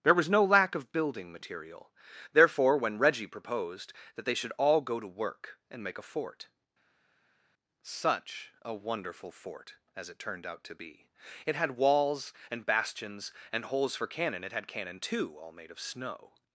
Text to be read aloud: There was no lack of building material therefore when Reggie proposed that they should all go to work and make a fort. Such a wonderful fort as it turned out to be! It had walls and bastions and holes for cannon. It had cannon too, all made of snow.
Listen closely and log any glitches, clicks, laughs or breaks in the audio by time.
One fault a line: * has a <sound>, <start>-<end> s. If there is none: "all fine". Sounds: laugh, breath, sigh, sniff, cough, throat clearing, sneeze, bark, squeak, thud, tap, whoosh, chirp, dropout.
all fine